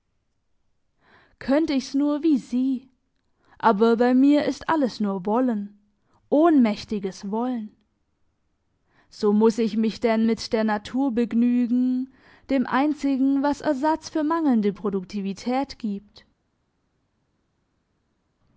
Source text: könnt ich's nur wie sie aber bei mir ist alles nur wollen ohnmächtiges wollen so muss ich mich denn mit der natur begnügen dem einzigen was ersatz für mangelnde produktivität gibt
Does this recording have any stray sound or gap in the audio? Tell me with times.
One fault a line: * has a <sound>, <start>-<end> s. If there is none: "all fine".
all fine